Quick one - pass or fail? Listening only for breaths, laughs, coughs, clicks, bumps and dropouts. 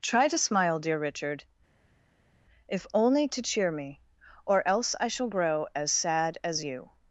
pass